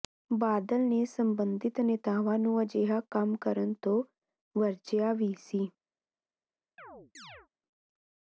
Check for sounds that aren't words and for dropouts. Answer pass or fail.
fail